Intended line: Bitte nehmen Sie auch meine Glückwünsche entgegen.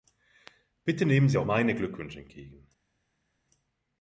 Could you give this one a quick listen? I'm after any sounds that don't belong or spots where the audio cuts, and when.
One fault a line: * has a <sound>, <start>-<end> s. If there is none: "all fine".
all fine